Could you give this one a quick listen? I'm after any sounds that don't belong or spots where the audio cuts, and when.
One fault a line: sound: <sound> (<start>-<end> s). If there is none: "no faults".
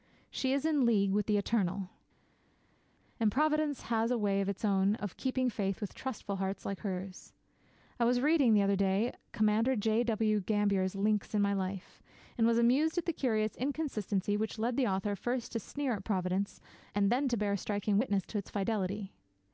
no faults